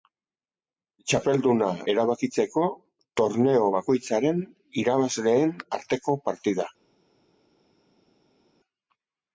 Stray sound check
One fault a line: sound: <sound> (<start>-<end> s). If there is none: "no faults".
no faults